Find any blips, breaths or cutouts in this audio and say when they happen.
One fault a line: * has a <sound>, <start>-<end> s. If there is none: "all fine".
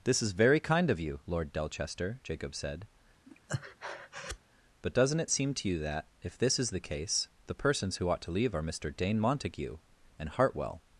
* has a breath, 3.3-4.4 s